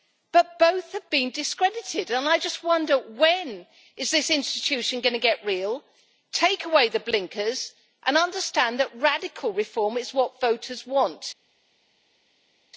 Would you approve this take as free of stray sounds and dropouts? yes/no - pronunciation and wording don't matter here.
yes